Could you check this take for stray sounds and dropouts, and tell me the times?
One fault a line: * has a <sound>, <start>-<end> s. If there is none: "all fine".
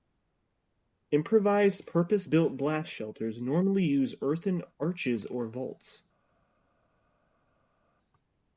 all fine